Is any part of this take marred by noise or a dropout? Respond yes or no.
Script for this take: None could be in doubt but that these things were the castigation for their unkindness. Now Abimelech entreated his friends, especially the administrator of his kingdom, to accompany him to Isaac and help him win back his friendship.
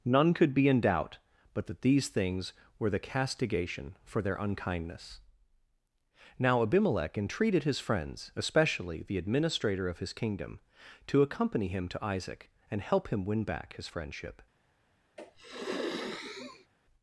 yes